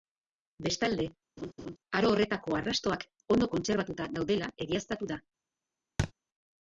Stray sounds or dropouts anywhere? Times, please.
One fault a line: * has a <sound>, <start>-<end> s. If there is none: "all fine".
* has a laugh, 1.4-1.8 s
* has a thud, 6.0-6.1 s